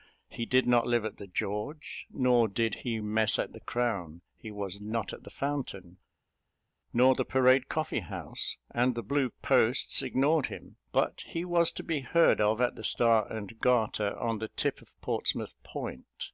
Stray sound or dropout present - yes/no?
no